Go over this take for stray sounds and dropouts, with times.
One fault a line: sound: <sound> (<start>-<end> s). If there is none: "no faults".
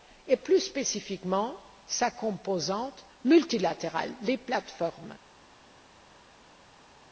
no faults